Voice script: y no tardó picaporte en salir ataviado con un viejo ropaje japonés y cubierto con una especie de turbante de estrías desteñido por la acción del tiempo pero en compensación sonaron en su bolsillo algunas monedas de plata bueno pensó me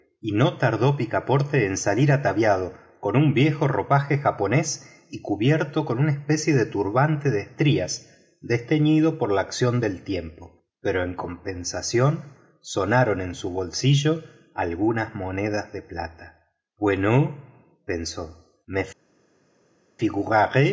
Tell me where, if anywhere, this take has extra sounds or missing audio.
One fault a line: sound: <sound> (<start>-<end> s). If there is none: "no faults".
no faults